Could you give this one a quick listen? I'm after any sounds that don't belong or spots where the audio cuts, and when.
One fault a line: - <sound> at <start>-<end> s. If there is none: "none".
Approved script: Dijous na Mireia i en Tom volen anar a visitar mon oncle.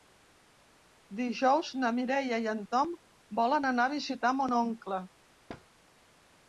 - thud at 5.5-5.7 s